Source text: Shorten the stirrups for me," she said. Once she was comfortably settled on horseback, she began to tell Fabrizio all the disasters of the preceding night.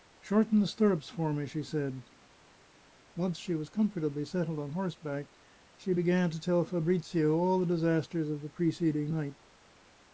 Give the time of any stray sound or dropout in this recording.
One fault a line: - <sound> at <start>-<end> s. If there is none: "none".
none